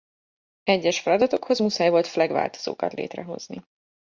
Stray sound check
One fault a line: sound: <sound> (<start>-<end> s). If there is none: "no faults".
no faults